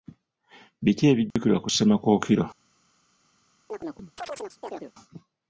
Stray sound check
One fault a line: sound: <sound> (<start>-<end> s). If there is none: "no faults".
sound: dropout (1.3-1.4 s)
sound: chirp (3.7-4.9 s)